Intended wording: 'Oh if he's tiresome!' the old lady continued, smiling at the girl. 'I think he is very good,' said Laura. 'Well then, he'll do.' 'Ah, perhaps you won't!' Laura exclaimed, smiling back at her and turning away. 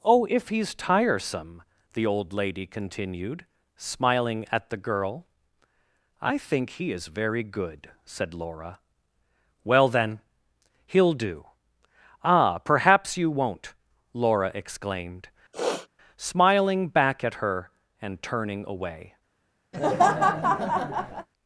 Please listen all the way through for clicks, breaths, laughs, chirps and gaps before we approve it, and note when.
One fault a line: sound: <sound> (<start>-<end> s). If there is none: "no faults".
sound: sniff (15.5-15.9 s)
sound: laugh (19.7-21.3 s)